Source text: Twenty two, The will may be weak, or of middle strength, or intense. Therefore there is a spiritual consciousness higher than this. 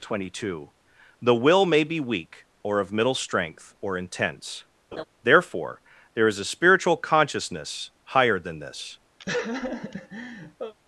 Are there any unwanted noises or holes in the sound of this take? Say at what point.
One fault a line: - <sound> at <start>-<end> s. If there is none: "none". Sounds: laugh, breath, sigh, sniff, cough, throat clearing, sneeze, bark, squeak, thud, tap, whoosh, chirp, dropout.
- laugh at 4.9-5.0 s
- laugh at 9.2-10.7 s